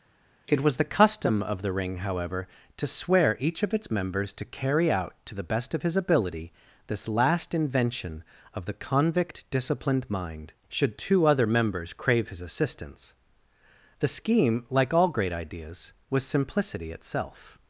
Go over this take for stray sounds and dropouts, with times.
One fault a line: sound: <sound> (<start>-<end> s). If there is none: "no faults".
no faults